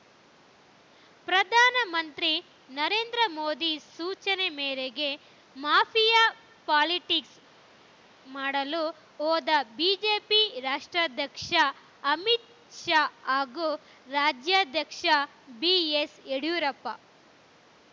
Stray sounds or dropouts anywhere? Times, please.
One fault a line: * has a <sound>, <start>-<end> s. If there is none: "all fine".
all fine